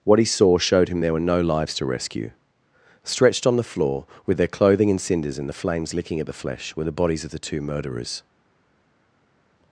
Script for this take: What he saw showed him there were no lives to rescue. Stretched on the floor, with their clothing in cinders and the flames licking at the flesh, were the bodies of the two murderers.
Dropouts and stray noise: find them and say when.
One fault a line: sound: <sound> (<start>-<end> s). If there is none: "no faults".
no faults